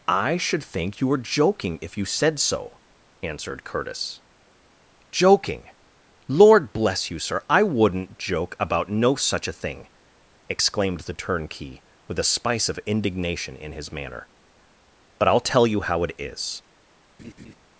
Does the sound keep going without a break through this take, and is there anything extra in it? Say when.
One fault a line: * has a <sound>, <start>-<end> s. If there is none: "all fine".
* has a laugh, 17.2-17.5 s